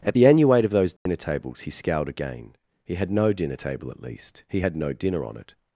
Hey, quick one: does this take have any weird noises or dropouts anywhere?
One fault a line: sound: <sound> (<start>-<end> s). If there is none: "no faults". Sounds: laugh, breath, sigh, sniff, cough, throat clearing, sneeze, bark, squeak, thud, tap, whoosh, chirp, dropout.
sound: dropout (1.0-1.1 s)